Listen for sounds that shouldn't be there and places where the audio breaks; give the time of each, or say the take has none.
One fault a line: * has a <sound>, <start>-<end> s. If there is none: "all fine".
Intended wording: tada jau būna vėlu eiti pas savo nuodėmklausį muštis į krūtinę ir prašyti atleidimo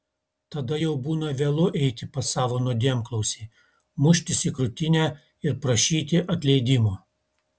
all fine